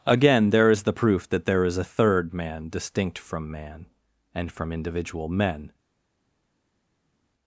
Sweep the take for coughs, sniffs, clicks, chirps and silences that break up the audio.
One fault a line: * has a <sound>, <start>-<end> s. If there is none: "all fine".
all fine